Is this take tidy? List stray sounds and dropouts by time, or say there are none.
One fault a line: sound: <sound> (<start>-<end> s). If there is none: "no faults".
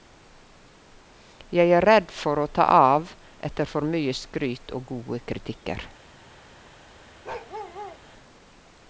sound: bark (7.2-8.0 s)